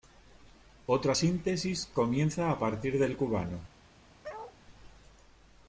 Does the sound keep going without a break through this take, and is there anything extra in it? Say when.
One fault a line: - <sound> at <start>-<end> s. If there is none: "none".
- bark at 4.2-4.6 s